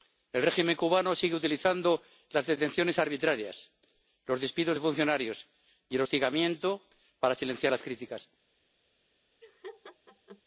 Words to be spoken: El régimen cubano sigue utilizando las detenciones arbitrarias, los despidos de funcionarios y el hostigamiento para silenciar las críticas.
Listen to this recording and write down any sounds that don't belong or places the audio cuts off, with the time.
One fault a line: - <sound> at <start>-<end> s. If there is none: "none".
- laugh at 9.4-10.4 s